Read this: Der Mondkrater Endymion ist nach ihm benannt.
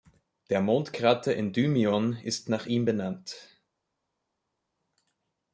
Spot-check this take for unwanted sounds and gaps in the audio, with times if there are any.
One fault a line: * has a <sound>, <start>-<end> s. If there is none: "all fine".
all fine